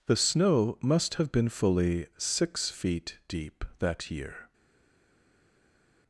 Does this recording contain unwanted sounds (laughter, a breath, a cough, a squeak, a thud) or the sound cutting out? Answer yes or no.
no